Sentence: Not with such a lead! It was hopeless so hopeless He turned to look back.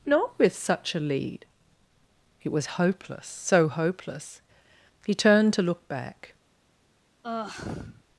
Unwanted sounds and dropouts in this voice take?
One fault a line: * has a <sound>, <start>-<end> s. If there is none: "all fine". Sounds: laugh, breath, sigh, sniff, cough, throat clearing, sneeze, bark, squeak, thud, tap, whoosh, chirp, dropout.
* has a sigh, 7.2-8.0 s